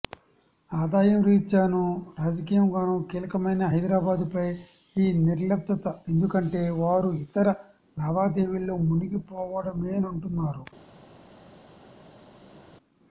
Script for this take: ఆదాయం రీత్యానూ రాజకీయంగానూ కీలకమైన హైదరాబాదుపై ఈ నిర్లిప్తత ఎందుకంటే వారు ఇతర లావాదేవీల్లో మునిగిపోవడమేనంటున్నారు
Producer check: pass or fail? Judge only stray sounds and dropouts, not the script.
pass